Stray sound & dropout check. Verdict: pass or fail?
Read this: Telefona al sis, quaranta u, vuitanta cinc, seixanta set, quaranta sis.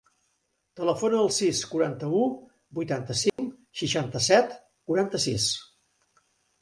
fail